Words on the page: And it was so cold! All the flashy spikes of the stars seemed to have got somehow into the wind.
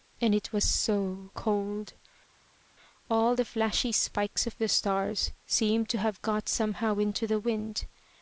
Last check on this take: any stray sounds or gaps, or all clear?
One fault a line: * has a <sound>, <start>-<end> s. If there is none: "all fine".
all fine